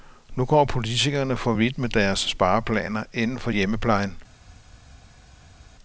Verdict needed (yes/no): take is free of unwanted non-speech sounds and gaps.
yes